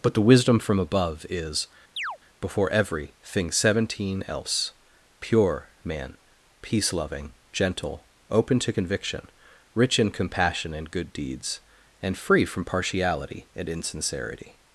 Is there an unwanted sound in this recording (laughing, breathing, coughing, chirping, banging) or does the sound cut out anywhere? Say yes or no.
yes